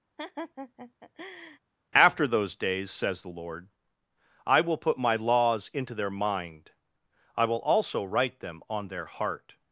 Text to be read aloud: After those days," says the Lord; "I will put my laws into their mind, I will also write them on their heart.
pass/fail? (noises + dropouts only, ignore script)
fail